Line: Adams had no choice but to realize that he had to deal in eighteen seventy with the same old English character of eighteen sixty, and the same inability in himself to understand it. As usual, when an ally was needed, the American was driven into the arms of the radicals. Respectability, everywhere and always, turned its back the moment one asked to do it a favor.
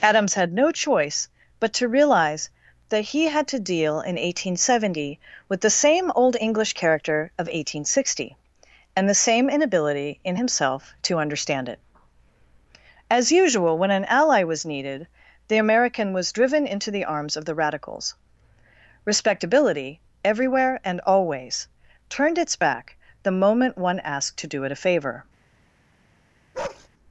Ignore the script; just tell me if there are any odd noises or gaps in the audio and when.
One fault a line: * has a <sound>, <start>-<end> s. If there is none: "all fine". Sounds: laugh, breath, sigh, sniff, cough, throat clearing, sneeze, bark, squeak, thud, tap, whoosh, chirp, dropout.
* has a bark, 26.5-26.9 s